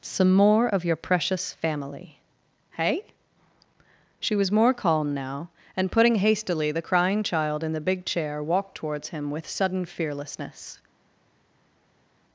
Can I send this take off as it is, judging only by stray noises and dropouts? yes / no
yes